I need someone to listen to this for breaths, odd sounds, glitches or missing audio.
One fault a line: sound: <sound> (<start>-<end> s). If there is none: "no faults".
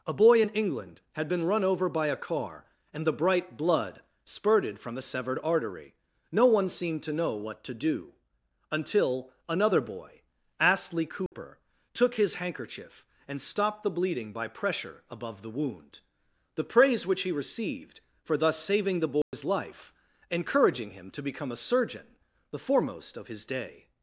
sound: dropout (11.3-11.3 s)
sound: dropout (19.2-19.3 s)